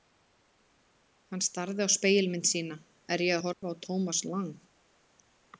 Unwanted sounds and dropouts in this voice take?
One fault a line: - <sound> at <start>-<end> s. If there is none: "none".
- dropout at 3.5-3.6 s